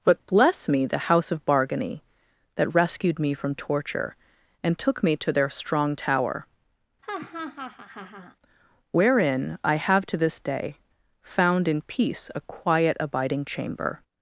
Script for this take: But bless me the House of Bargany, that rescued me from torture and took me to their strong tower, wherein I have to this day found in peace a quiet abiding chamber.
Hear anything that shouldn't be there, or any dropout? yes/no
yes